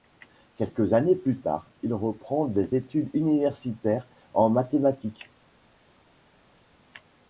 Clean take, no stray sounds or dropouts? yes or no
yes